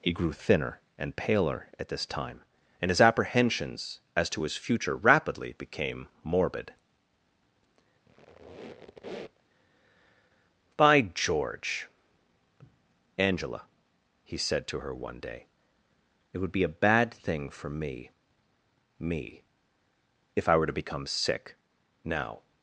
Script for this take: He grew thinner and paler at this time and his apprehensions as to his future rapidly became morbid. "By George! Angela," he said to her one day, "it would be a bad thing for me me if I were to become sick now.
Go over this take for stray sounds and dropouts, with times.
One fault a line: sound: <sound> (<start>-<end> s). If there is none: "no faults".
sound: squeak (8.1-9.5 s)